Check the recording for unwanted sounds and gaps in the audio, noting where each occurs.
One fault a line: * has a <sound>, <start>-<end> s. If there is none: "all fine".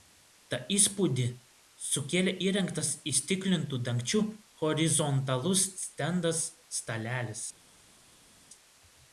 all fine